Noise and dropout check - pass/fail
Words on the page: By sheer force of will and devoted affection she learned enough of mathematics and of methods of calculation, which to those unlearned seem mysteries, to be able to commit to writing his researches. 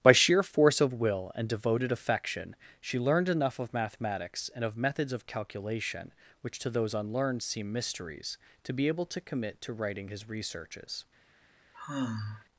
fail